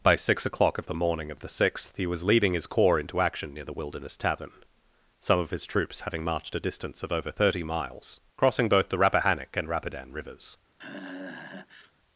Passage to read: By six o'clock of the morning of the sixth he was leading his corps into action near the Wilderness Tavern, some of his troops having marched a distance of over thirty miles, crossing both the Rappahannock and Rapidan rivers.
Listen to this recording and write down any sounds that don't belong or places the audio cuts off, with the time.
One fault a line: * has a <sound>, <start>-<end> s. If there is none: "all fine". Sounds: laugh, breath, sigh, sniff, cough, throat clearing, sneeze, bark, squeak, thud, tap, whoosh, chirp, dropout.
* has a sigh, 10.8-11.9 s